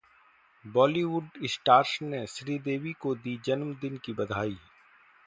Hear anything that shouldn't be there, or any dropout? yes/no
no